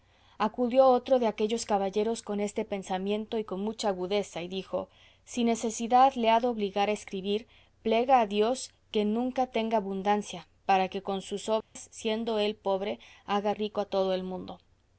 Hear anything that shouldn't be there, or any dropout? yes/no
yes